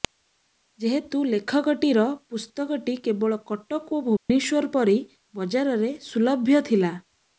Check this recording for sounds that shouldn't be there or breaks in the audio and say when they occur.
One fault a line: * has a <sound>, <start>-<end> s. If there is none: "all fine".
* has a dropout, 4.2-4.3 s